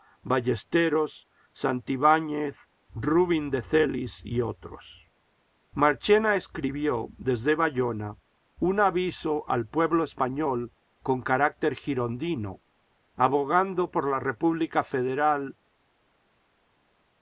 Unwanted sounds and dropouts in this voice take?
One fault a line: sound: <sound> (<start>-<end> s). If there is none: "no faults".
no faults